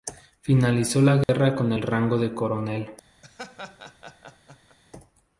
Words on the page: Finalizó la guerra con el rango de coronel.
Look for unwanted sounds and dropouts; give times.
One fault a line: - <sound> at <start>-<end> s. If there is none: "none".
- dropout at 1.2-1.3 s
- laugh at 3.2-4.8 s